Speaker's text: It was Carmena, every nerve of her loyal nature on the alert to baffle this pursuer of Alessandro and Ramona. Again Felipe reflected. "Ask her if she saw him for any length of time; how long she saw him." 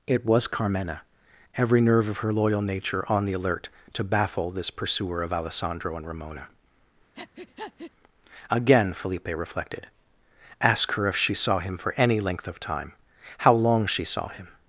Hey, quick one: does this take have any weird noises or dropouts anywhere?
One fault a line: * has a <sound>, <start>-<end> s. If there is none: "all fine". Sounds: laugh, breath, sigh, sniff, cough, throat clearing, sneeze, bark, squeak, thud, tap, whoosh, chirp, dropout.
* has a breath, 7.1-7.9 s